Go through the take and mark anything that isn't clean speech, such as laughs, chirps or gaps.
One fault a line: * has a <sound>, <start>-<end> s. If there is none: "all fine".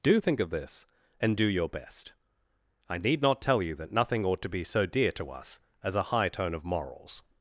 all fine